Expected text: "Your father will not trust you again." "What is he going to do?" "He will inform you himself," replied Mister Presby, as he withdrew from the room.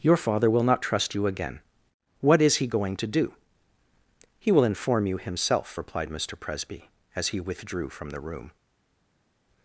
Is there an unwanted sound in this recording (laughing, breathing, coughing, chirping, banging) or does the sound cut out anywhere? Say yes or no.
no